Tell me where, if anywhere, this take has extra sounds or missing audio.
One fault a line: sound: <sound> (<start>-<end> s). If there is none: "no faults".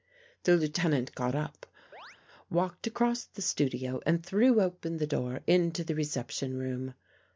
sound: chirp (1.9-2.2 s)